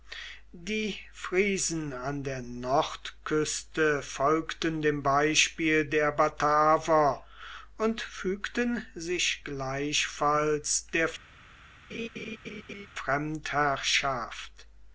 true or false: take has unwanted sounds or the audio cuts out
true